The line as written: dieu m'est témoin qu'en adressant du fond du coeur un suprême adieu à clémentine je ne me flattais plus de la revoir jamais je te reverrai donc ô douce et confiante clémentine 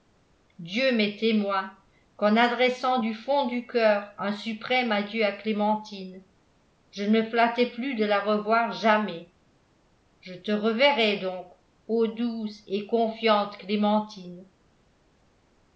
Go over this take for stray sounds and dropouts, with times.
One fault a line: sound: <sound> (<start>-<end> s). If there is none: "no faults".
no faults